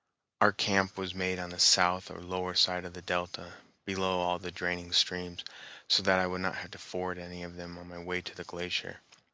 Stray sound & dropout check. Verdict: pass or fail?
pass